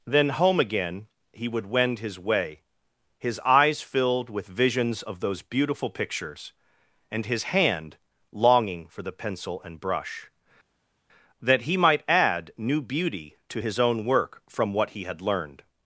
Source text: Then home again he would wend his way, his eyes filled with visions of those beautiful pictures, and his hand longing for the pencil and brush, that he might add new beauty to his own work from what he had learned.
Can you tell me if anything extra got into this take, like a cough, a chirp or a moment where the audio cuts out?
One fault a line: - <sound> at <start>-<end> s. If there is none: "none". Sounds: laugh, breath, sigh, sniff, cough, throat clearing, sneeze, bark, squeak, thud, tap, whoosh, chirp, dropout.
none